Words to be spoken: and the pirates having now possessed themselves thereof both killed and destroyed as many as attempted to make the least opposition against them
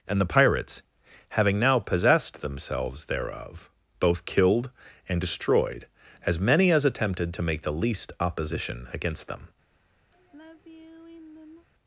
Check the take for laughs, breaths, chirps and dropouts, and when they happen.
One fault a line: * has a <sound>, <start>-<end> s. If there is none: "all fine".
* has a sigh, 10.1-11.7 s